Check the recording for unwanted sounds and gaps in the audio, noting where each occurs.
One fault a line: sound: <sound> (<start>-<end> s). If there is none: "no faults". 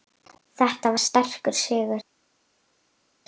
no faults